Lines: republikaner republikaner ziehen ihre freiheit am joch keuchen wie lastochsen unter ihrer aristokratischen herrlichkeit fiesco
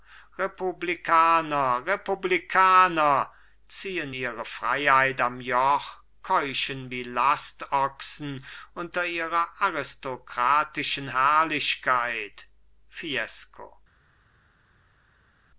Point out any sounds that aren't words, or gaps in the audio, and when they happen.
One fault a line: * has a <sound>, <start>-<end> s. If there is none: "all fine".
all fine